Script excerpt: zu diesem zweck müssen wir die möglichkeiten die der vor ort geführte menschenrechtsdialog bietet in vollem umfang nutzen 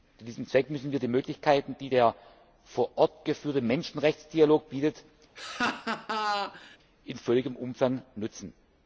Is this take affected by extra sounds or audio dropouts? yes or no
yes